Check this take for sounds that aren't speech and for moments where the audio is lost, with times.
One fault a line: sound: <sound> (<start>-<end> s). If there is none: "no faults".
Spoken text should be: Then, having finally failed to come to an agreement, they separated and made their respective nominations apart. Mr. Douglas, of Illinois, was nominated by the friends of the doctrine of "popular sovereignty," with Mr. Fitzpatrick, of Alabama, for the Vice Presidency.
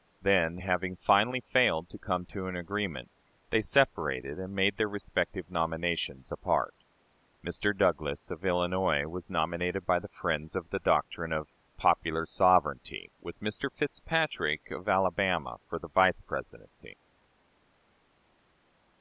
no faults